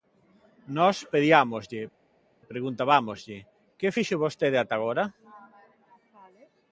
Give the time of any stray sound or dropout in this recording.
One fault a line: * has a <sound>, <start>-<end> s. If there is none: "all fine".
all fine